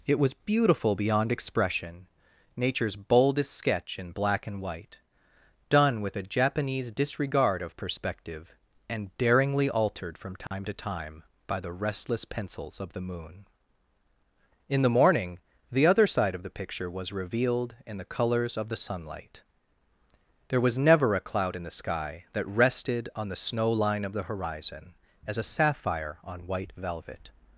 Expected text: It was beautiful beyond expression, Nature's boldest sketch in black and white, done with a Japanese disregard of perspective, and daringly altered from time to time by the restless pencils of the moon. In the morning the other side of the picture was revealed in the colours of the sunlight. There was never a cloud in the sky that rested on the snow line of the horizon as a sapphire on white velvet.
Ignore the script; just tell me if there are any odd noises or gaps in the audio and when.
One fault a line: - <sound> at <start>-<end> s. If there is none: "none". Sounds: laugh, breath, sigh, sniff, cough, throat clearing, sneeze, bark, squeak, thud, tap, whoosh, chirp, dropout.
- dropout at 10.5-10.5 s